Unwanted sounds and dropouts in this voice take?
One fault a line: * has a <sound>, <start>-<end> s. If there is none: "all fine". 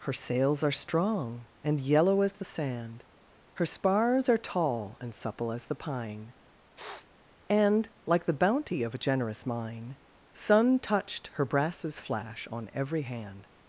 * has a sniff, 6.8-7.1 s